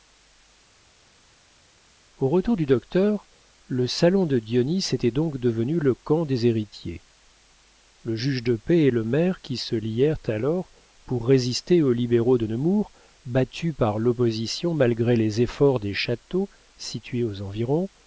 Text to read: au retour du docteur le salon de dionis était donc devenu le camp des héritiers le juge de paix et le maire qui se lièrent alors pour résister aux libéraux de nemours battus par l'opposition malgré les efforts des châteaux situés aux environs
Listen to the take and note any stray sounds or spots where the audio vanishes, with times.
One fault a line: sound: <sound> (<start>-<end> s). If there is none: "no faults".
no faults